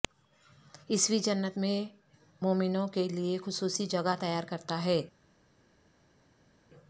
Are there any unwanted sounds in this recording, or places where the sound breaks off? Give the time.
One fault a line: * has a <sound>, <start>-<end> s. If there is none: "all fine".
all fine